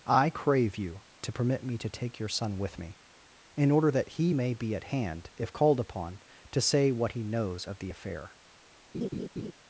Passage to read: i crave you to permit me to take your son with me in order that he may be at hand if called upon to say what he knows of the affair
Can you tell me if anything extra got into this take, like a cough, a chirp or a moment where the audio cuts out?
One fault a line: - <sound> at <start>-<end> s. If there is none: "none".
- laugh at 8.9-9.5 s